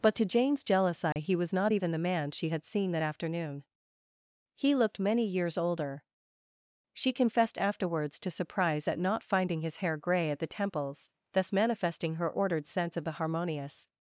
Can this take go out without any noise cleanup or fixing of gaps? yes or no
no